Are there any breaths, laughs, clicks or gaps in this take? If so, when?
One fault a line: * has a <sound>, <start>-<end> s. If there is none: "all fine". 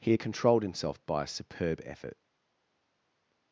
all fine